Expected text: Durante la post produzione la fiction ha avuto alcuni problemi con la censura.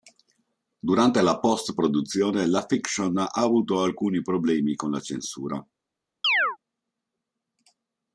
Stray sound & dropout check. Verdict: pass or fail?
fail